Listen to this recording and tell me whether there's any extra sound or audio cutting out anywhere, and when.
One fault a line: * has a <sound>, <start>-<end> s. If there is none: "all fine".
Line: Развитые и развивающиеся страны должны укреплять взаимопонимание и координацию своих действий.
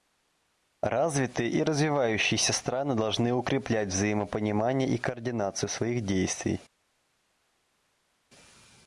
all fine